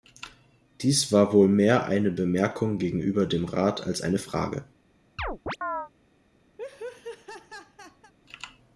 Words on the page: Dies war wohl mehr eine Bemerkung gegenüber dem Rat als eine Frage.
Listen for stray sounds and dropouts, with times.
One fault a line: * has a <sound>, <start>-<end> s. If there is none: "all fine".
* has a chirp, 5.2-5.9 s
* has a laugh, 6.6-8.1 s